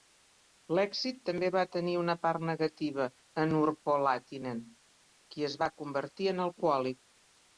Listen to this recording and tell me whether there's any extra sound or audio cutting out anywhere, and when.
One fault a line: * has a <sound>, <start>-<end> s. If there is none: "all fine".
all fine